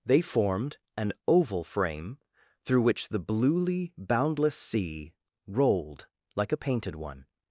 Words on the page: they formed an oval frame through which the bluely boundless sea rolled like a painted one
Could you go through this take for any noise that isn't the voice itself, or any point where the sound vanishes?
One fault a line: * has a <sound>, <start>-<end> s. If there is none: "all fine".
all fine